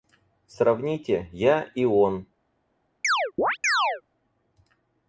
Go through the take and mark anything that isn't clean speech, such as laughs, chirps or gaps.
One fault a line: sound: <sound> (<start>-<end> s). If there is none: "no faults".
sound: chirp (3.0-4.0 s)